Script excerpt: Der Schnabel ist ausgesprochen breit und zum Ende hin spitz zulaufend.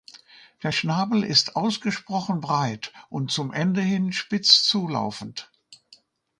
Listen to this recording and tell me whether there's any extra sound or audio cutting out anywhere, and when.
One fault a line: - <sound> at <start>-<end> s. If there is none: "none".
none